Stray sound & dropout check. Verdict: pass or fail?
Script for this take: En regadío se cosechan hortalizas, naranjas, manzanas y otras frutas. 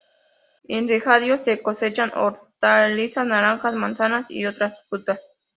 pass